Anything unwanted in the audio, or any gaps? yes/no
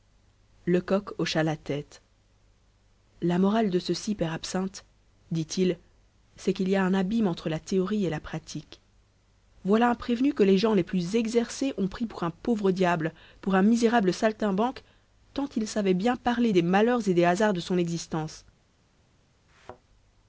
yes